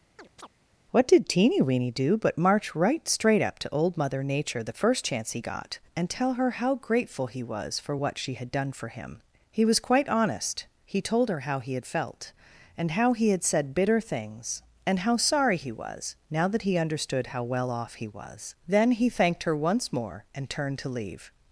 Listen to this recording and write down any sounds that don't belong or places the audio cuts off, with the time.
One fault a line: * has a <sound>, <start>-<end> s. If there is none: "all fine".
* has a chirp, 0.2-0.5 s